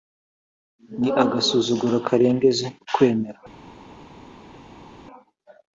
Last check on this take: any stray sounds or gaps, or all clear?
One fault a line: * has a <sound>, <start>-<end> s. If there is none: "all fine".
all fine